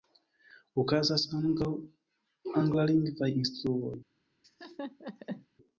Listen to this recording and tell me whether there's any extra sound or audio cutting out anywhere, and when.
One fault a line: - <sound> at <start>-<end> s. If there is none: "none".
- laugh at 4.4-5.5 s